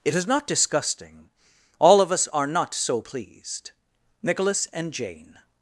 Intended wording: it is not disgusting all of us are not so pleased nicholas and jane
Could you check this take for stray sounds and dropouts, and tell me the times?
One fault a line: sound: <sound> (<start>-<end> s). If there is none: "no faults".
no faults